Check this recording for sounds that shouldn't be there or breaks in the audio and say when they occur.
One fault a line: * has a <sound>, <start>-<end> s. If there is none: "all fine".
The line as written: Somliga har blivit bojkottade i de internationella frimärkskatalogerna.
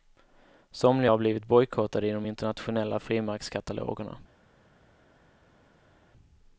all fine